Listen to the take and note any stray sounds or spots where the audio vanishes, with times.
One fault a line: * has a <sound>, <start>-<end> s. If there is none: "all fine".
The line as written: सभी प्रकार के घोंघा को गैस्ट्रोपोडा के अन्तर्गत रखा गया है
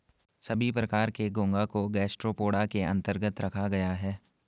all fine